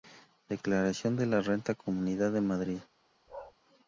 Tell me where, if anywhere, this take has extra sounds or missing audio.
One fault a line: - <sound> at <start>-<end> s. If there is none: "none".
- bark at 3.3-3.5 s